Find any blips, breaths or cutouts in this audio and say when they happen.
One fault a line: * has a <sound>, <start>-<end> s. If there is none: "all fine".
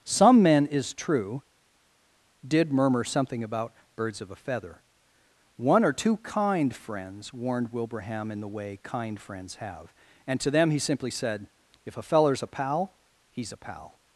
all fine